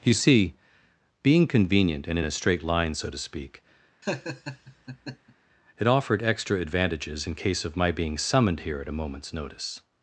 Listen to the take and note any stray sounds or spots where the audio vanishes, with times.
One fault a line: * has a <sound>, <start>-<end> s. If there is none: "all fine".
* has a laugh, 4.0-5.4 s